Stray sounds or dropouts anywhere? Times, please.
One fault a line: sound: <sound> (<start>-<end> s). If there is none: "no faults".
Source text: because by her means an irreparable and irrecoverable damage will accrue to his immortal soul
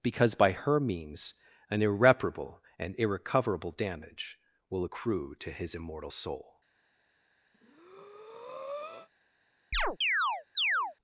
sound: breath (7.5-9.1 s)
sound: chirp (9.7-11.0 s)